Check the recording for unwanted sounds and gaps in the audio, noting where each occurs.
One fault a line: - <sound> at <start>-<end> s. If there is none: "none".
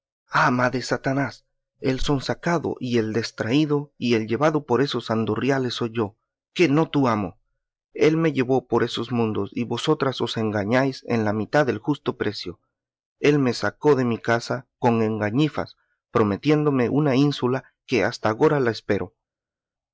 none